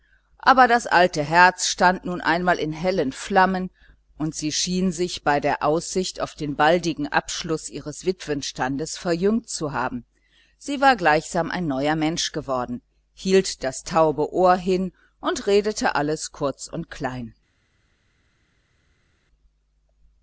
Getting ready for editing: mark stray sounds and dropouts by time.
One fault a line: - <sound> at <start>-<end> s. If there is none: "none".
none